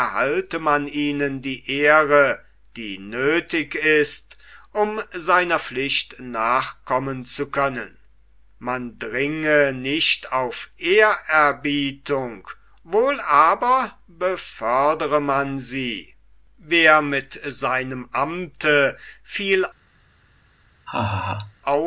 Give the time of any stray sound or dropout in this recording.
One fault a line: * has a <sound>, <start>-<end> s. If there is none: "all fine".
* has a laugh, 20.9-21.6 s